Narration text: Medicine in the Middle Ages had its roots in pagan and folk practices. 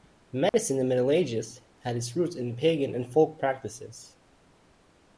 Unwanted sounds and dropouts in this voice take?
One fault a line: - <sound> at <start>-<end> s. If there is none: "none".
- dropout at 0.5-0.5 s